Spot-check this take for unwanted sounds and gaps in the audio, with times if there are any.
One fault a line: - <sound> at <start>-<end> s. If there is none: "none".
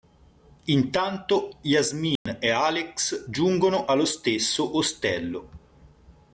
- dropout at 2.2-2.3 s